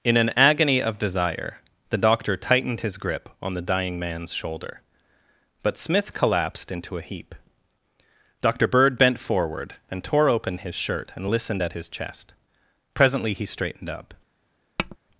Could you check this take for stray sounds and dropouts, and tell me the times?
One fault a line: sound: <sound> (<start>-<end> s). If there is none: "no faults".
sound: tap (14.8-15.0 s)